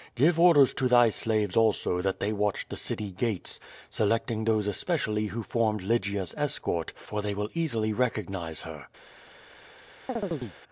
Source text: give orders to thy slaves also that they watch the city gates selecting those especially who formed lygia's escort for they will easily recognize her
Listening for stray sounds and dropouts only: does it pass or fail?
fail